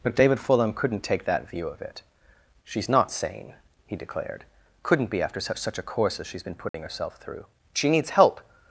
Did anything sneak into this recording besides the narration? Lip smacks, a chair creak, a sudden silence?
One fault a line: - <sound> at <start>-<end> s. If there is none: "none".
- dropout at 6.7-6.7 s